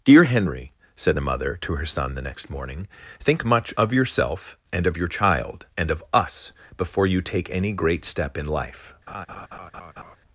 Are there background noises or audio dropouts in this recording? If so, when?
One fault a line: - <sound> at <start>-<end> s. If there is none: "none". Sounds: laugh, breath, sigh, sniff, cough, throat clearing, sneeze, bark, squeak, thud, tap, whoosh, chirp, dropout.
- laugh at 9.1-10.2 s